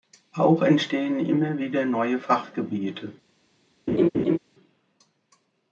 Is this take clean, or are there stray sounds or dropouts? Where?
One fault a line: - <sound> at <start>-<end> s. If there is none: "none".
- laugh at 3.9-4.4 s